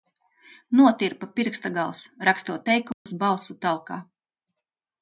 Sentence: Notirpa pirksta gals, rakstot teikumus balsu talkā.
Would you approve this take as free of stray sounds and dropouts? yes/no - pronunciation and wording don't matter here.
no